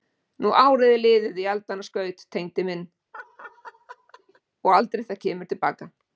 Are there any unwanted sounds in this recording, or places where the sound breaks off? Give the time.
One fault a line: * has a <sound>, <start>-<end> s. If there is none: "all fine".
* has a laugh, 3.1-4.4 s